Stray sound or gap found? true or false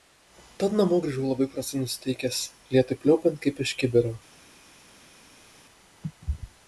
false